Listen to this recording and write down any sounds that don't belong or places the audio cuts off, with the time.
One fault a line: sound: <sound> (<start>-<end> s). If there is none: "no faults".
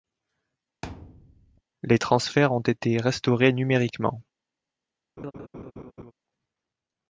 sound: thud (0.8-1.6 s)
sound: laugh (5.2-6.1 s)